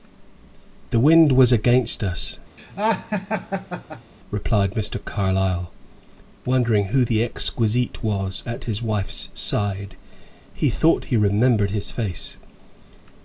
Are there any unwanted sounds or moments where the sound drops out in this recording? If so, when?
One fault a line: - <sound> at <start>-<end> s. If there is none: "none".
- laugh at 2.6-4.1 s